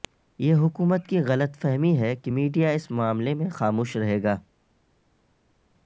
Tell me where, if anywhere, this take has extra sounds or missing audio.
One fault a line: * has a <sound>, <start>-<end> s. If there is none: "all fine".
all fine